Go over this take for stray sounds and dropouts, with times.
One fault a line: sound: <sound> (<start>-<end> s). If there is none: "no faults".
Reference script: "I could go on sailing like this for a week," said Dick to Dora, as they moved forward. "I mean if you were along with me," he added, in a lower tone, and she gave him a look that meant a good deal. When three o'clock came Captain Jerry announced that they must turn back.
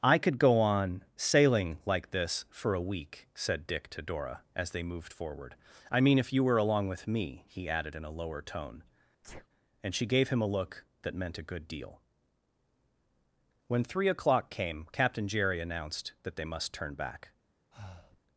sound: sneeze (9.2-9.5 s)
sound: breath (17.7-18.2 s)